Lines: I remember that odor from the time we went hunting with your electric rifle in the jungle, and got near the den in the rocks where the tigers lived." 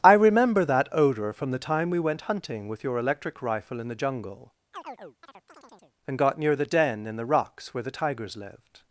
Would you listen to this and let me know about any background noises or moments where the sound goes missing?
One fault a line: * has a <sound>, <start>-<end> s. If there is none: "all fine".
* has a chirp, 4.7-6.0 s